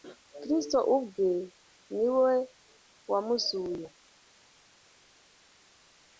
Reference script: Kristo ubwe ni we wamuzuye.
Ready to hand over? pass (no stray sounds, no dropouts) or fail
pass